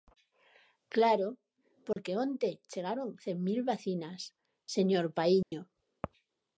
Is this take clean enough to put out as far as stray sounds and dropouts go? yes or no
no